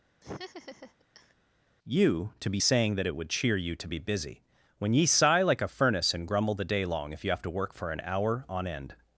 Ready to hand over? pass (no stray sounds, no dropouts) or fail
fail